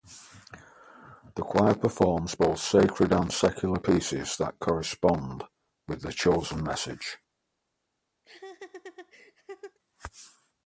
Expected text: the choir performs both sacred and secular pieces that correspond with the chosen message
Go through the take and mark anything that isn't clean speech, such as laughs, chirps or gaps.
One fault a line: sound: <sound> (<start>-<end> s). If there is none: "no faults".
sound: laugh (8.2-9.8 s)